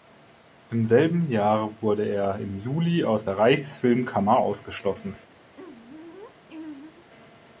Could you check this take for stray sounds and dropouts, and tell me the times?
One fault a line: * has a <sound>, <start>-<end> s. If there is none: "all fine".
* has a laugh, 5.5-7.1 s